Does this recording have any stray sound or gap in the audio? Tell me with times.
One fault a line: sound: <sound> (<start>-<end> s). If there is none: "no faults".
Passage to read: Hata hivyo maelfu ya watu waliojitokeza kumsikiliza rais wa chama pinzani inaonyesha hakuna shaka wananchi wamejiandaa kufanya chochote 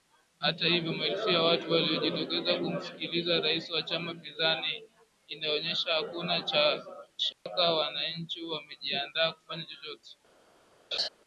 sound: dropout (7.3-7.5 s)
sound: laugh (10.9-11.1 s)